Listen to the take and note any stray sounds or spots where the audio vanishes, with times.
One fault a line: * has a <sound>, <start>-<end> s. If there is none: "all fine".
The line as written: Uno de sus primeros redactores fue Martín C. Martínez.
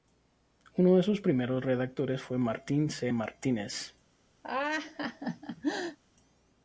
* has a laugh, 4.4-6.0 s